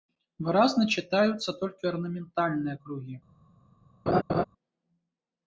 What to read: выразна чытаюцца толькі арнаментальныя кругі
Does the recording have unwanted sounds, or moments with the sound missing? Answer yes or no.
yes